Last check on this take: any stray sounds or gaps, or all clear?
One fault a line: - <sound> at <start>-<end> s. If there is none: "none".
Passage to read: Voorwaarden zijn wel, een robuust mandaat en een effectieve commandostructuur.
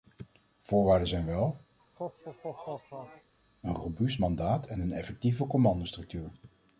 - laugh at 1.8-3.3 s